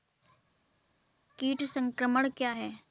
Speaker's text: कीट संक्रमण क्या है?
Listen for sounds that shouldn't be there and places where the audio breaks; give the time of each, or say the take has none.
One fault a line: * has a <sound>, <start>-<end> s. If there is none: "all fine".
all fine